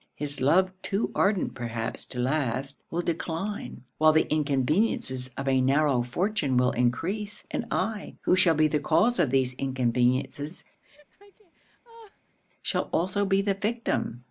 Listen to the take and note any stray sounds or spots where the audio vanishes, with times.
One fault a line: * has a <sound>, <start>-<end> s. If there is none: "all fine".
* has a laugh, 10.8-12.4 s